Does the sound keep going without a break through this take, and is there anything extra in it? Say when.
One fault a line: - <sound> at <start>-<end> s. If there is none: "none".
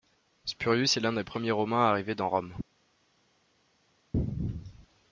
none